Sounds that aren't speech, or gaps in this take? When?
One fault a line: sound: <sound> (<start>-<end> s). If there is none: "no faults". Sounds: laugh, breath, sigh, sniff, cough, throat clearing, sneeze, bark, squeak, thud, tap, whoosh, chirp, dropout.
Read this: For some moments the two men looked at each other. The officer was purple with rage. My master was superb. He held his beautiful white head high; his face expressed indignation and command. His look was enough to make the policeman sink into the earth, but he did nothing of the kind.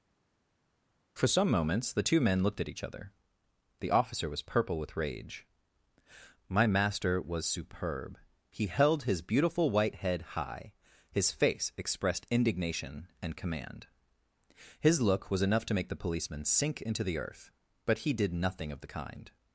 no faults